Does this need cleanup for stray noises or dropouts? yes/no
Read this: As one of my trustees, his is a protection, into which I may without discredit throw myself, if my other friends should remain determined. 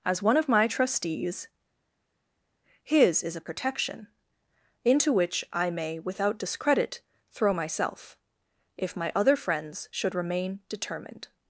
no